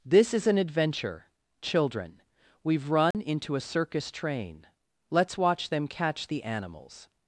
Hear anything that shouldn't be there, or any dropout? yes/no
yes